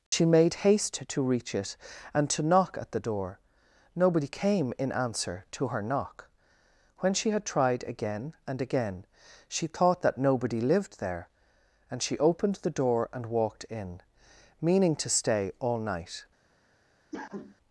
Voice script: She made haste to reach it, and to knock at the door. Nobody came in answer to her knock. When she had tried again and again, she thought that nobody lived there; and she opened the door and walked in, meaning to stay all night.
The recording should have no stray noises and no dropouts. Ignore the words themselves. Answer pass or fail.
fail